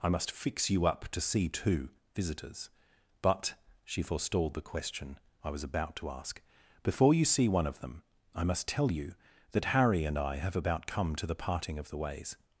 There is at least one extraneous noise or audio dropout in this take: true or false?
false